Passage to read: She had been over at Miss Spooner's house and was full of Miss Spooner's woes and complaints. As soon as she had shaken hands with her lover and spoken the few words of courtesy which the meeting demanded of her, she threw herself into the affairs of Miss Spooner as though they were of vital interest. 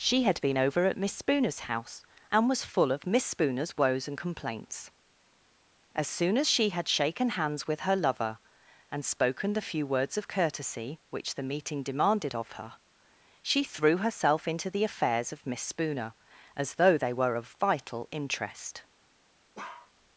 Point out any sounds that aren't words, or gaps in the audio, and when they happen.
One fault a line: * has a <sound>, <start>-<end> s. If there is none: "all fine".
* has a bark, 19.5-19.9 s